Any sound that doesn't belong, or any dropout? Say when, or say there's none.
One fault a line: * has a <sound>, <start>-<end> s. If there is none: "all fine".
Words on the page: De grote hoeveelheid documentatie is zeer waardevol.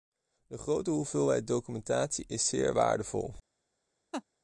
* has a laugh, 4.1-4.2 s